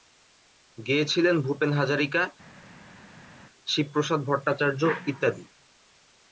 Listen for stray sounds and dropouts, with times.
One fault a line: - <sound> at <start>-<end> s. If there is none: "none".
none